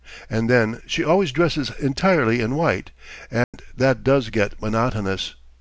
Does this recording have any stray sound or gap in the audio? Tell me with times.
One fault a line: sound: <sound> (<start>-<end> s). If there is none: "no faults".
sound: dropout (3.4-3.5 s)